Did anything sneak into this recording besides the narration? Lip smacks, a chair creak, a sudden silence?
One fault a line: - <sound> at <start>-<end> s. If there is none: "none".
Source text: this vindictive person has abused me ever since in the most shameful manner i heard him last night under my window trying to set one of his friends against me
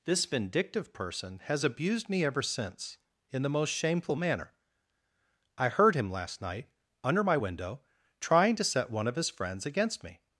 none